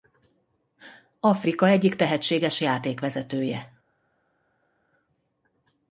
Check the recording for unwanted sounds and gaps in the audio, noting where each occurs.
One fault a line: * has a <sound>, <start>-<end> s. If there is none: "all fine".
all fine